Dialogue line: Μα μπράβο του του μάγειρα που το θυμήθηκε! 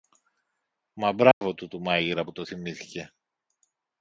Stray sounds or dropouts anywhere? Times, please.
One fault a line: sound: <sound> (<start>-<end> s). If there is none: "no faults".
sound: dropout (1.3-1.4 s)